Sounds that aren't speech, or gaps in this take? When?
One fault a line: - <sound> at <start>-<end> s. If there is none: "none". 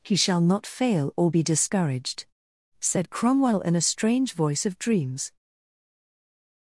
none